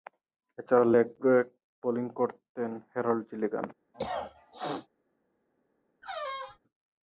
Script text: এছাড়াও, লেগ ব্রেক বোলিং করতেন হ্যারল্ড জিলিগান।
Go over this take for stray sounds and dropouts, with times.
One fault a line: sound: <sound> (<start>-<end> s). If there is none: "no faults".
sound: cough (3.9-4.9 s)
sound: squeak (6.0-6.6 s)